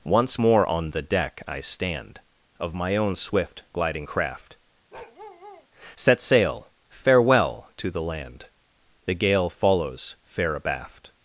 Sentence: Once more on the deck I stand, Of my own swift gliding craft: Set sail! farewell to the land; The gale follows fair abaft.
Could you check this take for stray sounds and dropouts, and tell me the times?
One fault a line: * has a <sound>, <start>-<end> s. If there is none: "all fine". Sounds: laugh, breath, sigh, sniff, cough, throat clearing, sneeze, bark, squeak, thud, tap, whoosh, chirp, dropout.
* has a bark, 4.9-5.7 s